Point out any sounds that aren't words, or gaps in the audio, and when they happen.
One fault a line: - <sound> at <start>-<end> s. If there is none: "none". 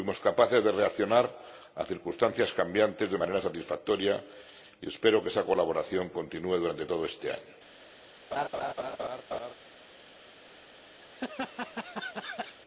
- laugh at 8.3-9.5 s
- laugh at 11.0-12.6 s